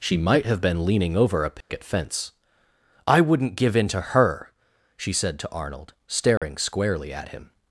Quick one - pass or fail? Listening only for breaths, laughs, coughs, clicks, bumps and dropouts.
fail